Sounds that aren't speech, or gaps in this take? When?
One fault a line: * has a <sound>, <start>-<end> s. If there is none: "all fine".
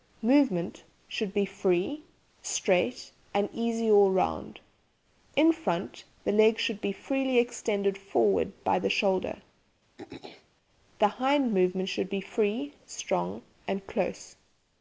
* has a throat clearing, 10.0-10.5 s